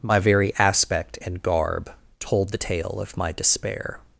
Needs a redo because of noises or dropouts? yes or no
no